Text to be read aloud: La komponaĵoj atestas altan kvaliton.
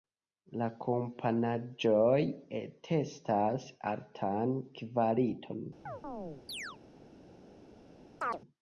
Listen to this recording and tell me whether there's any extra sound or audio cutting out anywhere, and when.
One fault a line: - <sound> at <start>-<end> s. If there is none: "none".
- chirp at 5.9-6.8 s
- chirp at 8.2-8.4 s